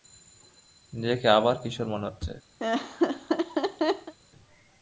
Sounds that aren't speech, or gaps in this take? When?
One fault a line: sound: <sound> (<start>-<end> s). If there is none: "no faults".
sound: laugh (2.6-4.1 s)